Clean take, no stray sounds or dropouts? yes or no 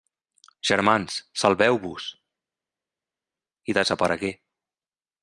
yes